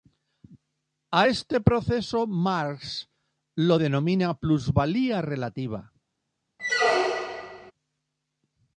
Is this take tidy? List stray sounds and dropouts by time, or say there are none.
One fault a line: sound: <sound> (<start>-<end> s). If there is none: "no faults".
sound: squeak (6.6-7.7 s)